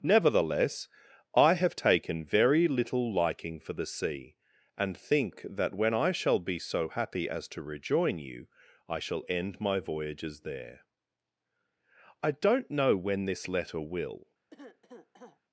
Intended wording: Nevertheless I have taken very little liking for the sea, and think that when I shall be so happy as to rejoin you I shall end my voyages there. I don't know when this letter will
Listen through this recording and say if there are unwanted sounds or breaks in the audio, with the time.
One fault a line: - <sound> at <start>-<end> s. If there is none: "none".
- cough at 14.5-15.4 s